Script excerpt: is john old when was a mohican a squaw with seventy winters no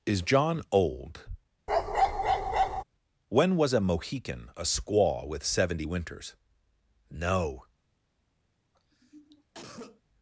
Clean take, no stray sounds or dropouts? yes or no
no